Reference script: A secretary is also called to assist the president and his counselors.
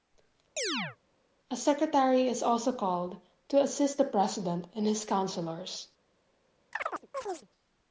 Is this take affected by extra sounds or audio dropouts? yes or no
yes